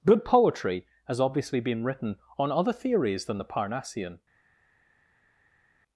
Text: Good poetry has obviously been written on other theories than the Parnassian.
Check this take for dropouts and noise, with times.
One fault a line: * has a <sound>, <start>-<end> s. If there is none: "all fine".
all fine